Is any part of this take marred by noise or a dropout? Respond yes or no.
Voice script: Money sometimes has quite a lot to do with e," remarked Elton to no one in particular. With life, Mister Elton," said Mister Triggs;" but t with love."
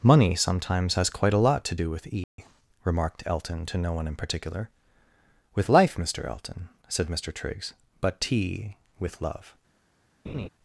yes